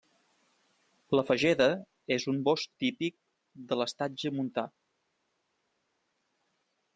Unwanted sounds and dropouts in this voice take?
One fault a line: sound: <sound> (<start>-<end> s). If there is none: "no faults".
no faults